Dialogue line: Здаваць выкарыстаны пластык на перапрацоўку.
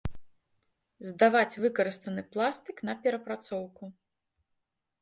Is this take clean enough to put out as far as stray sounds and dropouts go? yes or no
yes